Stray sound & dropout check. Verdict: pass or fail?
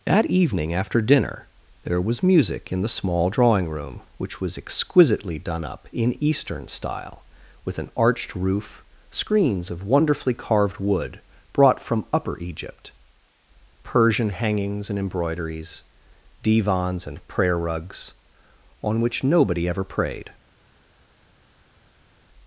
pass